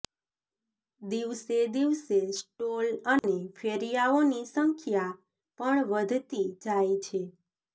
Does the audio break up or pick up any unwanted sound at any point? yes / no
yes